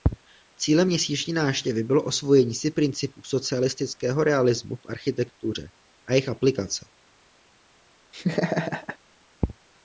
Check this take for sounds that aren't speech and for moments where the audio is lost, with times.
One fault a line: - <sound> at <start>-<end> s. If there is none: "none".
- laugh at 8.1-9.0 s